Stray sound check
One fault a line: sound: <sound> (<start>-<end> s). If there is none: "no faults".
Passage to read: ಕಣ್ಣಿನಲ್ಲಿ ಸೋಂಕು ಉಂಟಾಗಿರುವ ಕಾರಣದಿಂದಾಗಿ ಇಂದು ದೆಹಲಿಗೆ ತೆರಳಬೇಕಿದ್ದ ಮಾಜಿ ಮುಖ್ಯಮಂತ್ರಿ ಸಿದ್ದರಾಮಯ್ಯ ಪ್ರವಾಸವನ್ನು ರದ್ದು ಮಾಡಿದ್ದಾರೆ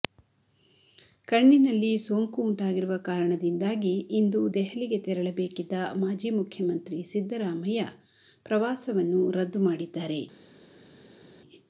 no faults